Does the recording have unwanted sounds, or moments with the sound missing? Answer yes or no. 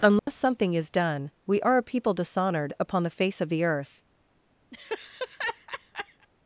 yes